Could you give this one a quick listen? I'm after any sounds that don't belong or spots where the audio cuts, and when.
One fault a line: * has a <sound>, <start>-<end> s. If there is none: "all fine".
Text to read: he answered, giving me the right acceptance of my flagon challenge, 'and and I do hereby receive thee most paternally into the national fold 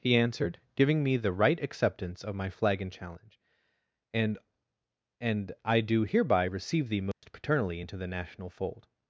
* has a dropout, 7.1-7.2 s